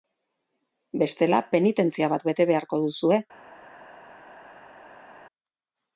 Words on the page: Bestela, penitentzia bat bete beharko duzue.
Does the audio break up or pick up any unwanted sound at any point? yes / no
no